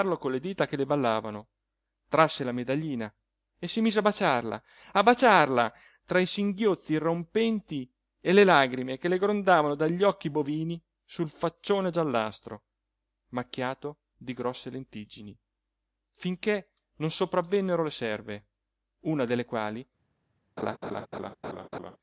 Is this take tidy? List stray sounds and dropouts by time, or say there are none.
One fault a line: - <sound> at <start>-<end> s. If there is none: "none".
- laugh at 20.6-22.0 s